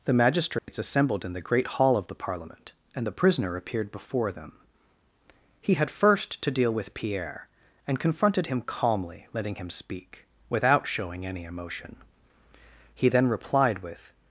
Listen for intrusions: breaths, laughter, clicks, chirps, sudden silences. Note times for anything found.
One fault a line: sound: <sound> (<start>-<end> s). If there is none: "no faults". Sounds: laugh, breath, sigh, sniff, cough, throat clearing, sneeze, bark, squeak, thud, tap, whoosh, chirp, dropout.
sound: dropout (0.6-0.7 s)